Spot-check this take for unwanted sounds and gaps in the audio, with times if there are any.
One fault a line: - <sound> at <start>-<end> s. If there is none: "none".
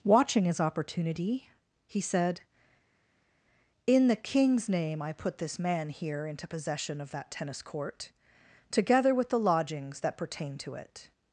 none